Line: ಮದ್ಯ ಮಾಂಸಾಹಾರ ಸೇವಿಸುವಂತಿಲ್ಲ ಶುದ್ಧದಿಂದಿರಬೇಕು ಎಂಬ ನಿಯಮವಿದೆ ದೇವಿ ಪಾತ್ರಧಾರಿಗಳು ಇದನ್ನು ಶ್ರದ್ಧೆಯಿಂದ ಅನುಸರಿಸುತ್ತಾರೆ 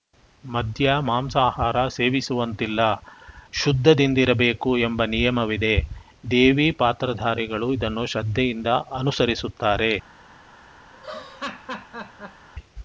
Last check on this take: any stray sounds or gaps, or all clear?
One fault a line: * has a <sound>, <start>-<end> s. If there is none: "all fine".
* has a laugh, 10.9-12.5 s